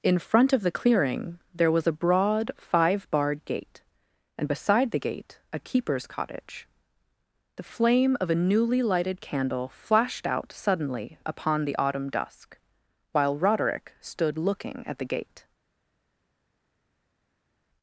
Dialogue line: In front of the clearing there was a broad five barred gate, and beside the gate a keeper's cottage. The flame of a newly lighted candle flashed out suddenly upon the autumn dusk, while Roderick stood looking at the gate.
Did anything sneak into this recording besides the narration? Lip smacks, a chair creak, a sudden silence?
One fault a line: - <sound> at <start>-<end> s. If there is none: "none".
none